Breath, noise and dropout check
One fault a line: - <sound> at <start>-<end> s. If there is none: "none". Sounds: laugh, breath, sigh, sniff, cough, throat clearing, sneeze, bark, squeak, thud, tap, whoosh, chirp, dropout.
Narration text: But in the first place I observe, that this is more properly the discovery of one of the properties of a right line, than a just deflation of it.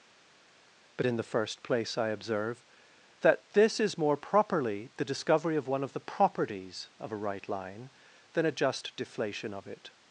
none